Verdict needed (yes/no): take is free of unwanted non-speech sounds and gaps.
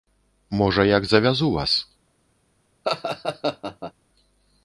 no